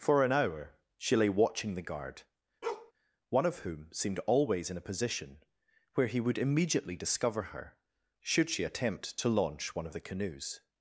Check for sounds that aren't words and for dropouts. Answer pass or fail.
fail